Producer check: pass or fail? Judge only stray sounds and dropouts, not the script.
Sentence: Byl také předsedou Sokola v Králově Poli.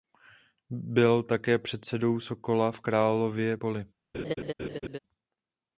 fail